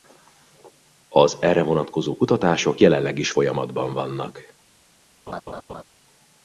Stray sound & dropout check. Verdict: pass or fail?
fail